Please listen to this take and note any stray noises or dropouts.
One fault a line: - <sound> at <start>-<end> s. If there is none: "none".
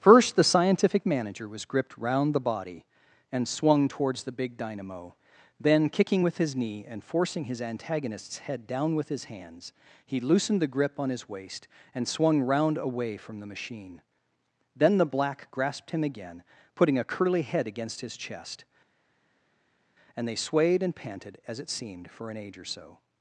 none